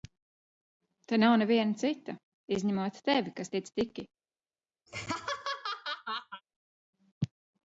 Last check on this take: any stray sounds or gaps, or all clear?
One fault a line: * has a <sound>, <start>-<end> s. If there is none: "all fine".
* has a laugh, 4.9-6.4 s